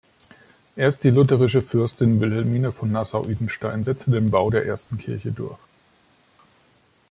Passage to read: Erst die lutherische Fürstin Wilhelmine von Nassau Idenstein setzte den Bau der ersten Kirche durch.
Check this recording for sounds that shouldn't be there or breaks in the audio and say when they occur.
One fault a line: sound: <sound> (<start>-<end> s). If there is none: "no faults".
no faults